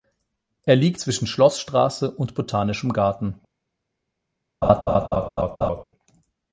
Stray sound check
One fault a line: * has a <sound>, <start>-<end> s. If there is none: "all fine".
* has a laugh, 4.6-5.8 s